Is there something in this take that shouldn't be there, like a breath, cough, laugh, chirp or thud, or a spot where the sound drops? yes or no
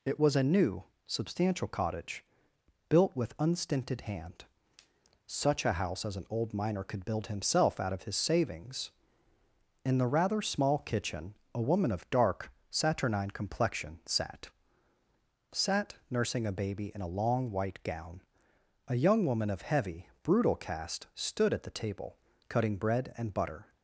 no